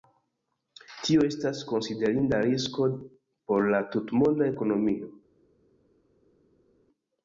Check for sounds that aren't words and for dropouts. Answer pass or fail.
pass